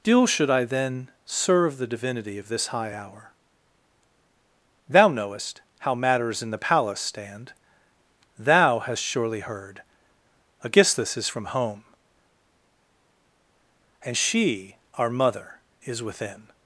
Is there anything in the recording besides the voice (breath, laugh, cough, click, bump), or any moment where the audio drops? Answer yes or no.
no